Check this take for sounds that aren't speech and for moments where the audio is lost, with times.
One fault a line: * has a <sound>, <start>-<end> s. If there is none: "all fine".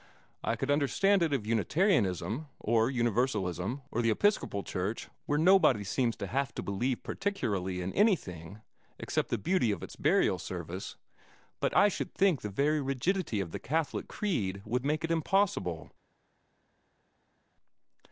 all fine